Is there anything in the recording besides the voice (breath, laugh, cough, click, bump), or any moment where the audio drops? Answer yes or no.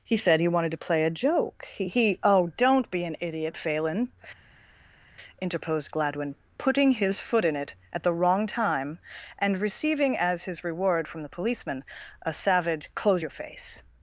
no